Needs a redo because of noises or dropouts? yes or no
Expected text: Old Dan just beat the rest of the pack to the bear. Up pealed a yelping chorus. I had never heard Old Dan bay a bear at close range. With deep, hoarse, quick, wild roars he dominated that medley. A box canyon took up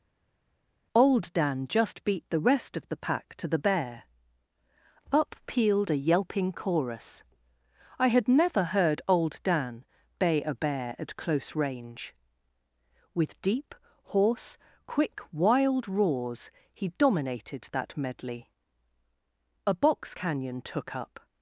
no